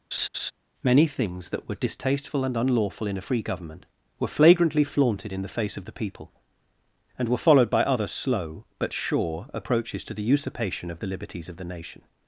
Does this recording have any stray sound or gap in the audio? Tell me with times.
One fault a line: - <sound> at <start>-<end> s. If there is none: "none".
- laugh at 0.1-0.5 s